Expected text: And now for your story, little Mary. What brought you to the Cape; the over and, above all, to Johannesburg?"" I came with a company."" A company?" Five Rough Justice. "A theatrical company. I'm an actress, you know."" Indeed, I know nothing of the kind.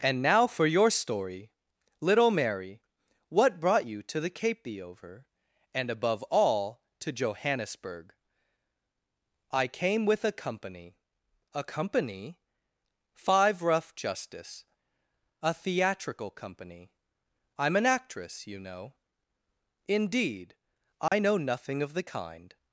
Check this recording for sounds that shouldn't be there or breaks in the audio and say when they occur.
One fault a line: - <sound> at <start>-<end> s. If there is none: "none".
- dropout at 21.1-21.1 s